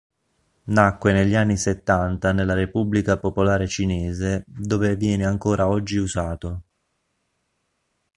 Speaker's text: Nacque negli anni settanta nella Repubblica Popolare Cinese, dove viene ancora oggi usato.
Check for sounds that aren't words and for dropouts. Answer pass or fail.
pass